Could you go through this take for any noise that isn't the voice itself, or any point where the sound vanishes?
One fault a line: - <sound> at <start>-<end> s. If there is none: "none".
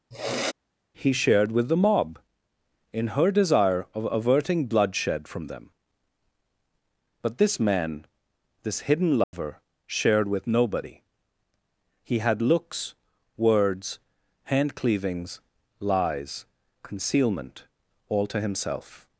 - sniff at 0.1-0.5 s
- dropout at 9.2-9.3 s